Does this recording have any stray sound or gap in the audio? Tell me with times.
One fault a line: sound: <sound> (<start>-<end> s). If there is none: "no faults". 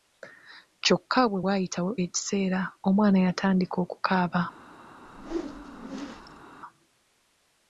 sound: whoosh (5.0-6.4 s)